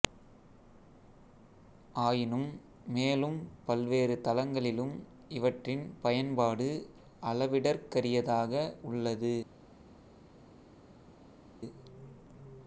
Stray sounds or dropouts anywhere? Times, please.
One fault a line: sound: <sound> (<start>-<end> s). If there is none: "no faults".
no faults